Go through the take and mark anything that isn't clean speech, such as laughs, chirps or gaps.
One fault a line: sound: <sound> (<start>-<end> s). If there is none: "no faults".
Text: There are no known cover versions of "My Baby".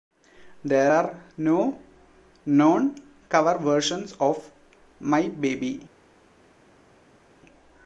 no faults